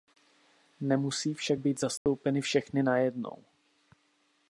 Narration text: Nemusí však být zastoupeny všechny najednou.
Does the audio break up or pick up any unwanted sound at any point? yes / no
yes